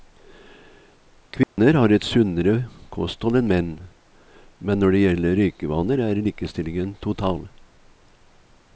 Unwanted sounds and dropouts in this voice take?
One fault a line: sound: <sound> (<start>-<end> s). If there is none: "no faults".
sound: dropout (1.4-1.6 s)